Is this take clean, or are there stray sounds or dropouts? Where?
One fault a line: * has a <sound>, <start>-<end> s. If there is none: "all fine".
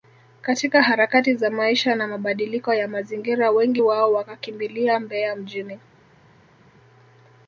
all fine